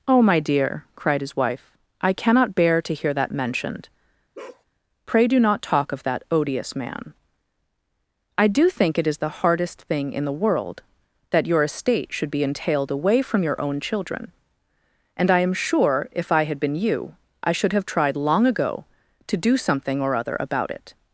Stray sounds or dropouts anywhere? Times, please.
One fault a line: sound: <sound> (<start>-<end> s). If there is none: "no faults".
sound: bark (4.3-4.6 s)